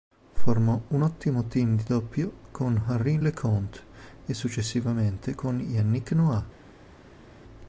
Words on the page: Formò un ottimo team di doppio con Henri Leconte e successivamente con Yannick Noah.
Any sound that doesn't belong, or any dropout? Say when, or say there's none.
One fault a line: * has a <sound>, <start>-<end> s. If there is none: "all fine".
all fine